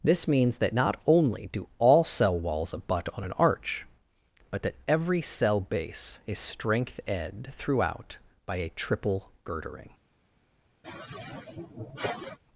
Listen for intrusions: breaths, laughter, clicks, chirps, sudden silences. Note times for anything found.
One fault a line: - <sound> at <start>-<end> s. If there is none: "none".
- sigh at 10.8-12.4 s